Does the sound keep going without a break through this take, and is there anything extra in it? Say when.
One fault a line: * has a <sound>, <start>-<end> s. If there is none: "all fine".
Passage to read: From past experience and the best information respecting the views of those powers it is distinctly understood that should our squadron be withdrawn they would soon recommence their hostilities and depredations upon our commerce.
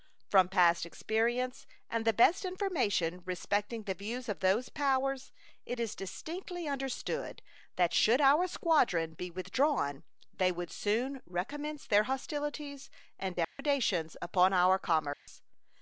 * has a dropout, 13.4-13.6 s
* has a dropout, 15.1-15.3 s